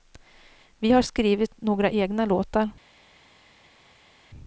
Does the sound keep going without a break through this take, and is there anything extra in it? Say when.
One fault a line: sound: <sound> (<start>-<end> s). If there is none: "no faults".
no faults